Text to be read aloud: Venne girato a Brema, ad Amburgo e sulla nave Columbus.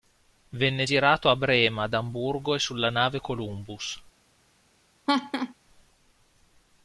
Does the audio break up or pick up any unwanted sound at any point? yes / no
yes